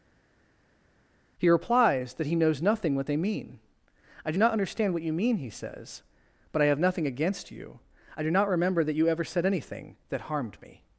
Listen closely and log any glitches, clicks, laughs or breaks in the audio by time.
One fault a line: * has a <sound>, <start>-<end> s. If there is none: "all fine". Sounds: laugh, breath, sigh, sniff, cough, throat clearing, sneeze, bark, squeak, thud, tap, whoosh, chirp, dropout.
all fine